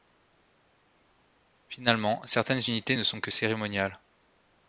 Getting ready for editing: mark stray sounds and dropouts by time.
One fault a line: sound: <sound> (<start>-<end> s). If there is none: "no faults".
no faults